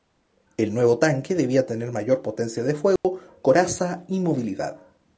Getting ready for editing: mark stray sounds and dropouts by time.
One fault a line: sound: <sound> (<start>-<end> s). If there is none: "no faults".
sound: dropout (3.0-3.0 s)